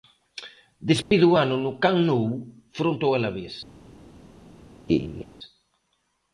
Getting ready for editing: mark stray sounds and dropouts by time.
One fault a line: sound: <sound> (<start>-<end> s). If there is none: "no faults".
sound: dropout (1.0-1.1 s)
sound: laugh (4.9-5.3 s)